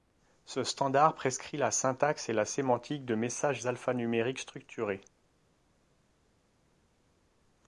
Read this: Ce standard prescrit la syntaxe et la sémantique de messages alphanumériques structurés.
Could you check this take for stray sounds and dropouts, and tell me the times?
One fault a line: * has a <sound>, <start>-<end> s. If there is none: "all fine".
all fine